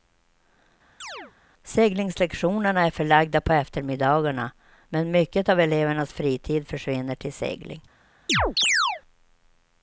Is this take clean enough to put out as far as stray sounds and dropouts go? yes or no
no